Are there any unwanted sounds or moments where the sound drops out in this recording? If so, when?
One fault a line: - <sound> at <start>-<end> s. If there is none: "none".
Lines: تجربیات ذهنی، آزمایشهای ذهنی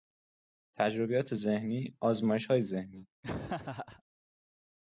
- laugh at 3.2-4.0 s